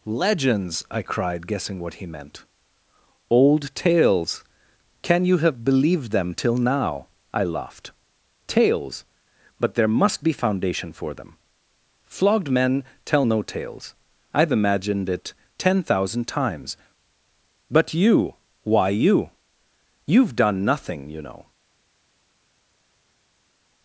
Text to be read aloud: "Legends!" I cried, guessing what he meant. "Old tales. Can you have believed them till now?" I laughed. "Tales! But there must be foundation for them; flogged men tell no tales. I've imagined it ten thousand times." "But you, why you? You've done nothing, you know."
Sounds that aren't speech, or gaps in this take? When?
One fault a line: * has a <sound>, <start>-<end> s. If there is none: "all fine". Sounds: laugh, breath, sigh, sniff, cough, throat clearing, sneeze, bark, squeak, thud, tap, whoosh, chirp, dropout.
all fine